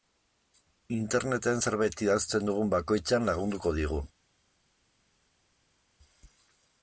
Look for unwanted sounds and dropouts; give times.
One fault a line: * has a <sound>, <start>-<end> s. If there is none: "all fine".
all fine